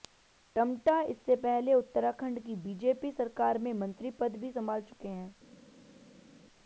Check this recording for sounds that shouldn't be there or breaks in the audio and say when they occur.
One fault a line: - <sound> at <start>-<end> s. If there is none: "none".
none